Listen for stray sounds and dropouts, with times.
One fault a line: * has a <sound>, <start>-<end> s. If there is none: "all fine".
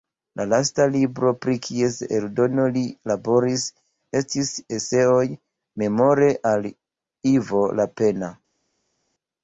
all fine